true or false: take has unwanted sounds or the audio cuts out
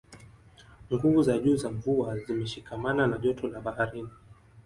false